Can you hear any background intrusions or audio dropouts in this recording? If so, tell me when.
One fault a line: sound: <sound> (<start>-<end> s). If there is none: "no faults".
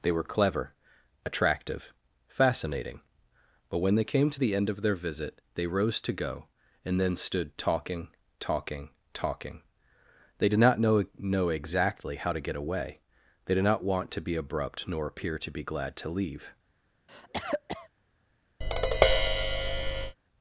sound: cough (17.1-17.9 s)
sound: tap (18.6-20.2 s)